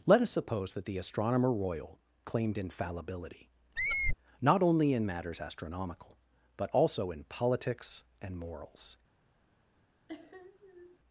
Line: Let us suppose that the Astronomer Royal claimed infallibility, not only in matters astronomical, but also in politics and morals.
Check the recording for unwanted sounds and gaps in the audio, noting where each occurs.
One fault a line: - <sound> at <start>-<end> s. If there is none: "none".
- squeak at 3.8-4.2 s
- sniff at 10.1-11.0 s